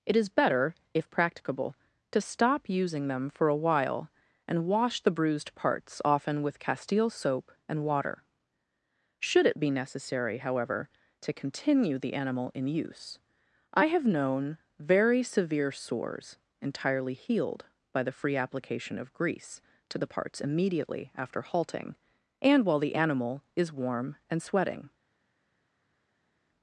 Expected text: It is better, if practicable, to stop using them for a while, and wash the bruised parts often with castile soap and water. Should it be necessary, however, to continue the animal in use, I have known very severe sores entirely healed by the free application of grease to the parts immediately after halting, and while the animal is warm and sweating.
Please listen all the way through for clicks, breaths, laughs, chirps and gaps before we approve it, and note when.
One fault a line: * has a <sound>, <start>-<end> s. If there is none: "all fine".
all fine